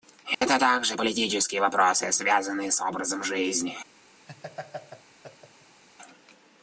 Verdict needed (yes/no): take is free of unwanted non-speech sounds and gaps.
no